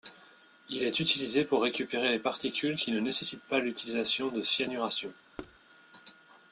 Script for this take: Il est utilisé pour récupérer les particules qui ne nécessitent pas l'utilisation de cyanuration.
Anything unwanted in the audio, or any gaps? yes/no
yes